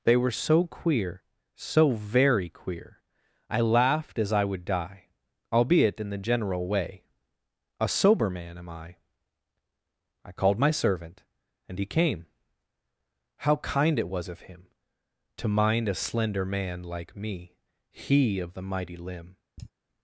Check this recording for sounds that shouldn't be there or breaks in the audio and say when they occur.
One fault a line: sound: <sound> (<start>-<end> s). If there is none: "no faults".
sound: sigh (19.6-19.7 s)